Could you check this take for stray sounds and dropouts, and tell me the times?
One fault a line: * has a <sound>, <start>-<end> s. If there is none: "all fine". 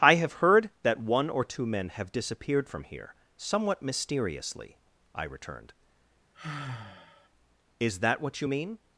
* has a sigh, 6.3-7.3 s